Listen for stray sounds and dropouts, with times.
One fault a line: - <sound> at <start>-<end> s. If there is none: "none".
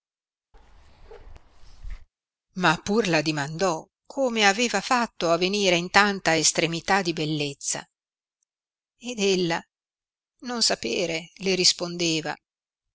- bark at 0.5-2.1 s